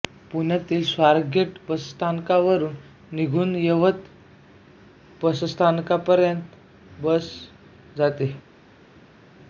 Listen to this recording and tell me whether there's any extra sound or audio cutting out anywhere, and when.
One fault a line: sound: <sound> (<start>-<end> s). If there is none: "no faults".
no faults